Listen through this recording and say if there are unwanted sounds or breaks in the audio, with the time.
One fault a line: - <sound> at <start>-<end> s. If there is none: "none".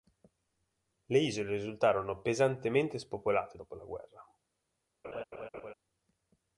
- laugh at 5.0-5.7 s